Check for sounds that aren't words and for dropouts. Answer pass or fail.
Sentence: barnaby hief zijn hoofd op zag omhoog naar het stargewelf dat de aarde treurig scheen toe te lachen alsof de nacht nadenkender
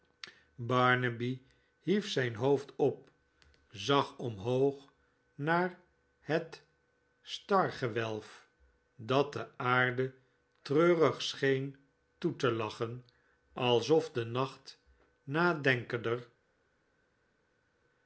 pass